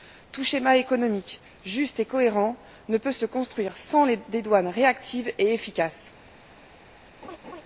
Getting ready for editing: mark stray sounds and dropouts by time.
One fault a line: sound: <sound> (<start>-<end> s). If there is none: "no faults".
sound: laugh (7.2-7.6 s)